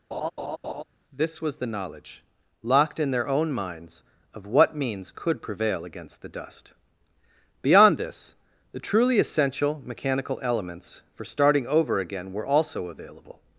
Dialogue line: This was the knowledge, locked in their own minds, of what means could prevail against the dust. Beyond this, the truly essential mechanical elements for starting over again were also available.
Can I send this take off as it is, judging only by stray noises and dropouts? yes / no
no